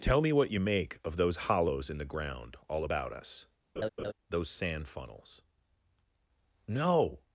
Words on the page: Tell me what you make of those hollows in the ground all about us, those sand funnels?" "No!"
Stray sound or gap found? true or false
true